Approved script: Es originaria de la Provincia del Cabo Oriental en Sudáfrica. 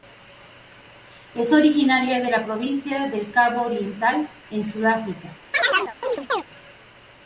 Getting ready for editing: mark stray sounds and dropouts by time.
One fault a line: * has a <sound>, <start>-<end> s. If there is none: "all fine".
* has a chirp, 5.5-6.4 s